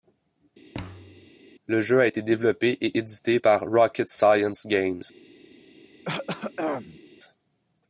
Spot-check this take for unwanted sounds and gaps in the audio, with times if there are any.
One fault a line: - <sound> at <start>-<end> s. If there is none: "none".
- thud at 0.7-1.3 s
- throat clearing at 6.0-7.0 s